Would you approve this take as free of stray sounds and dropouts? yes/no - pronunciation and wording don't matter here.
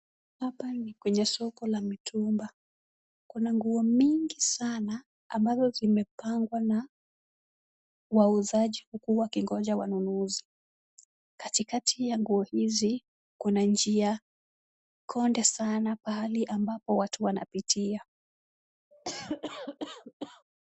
no